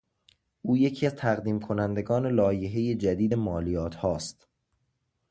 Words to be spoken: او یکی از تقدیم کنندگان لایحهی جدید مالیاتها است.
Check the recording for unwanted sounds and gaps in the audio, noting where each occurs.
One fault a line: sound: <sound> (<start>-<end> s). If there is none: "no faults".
no faults